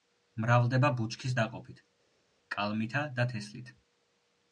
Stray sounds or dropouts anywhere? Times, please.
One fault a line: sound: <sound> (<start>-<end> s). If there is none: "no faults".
no faults